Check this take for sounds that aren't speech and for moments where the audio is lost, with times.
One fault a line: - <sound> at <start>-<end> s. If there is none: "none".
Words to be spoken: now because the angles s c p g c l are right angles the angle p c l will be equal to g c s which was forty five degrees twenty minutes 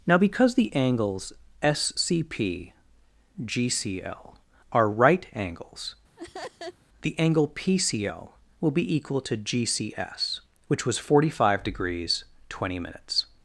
- laugh at 6.2-6.8 s